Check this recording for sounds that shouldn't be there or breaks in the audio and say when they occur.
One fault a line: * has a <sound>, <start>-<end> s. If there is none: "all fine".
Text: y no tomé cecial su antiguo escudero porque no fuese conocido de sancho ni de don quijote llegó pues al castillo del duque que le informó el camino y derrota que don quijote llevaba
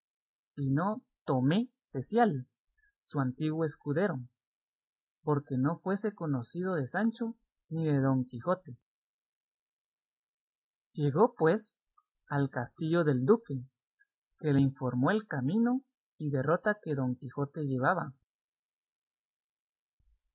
all fine